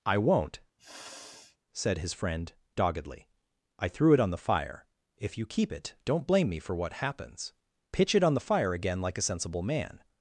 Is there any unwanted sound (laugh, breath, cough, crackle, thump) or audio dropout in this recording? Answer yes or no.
yes